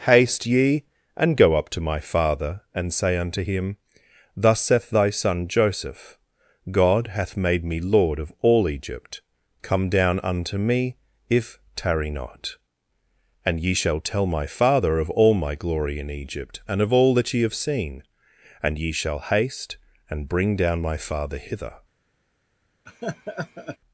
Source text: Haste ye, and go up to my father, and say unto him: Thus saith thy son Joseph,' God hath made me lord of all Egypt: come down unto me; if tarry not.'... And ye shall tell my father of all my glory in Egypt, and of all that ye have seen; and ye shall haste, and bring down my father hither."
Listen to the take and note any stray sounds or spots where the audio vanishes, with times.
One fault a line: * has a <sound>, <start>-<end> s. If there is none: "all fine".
* has a laugh, 22.9-23.8 s